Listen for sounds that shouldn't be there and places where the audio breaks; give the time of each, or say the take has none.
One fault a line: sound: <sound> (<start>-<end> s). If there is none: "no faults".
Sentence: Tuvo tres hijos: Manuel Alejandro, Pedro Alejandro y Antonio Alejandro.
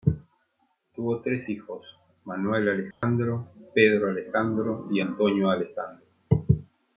sound: dropout (2.9-3.0 s)